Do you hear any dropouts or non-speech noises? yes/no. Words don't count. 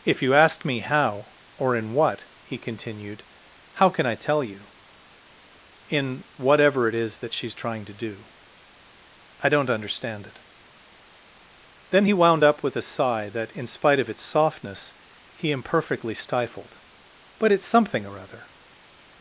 no